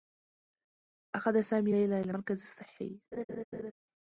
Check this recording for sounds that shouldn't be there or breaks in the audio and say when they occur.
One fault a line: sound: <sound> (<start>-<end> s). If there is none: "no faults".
sound: laugh (3.1-3.7 s)